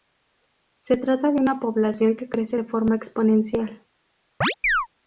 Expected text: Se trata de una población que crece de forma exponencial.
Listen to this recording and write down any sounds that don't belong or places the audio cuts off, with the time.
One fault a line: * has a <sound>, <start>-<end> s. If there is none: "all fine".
* has a chirp, 4.4-4.9 s